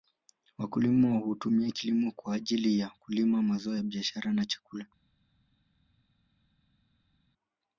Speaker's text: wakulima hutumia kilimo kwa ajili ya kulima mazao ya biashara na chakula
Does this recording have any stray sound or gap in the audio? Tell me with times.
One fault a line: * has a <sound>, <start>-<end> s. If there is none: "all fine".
all fine